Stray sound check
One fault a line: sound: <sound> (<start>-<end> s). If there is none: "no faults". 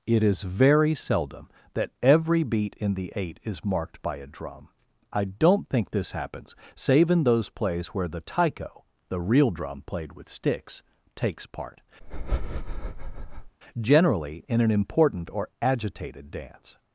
sound: breath (12.0-13.6 s)